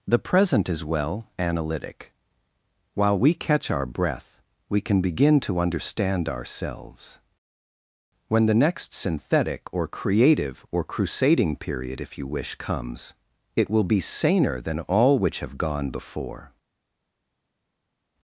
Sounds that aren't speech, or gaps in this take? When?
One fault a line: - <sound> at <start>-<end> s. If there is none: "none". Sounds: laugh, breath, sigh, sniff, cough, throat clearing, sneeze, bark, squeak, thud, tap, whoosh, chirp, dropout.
none